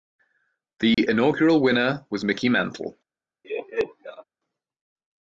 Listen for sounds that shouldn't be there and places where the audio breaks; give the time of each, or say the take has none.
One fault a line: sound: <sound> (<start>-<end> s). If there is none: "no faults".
sound: dropout (0.9-1.0 s)
sound: laugh (3.4-4.2 s)